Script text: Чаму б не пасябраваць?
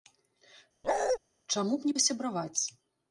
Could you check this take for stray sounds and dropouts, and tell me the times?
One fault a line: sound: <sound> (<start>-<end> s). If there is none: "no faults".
sound: bark (0.8-1.2 s)